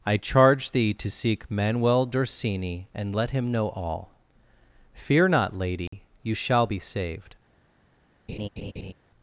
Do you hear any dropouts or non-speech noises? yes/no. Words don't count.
yes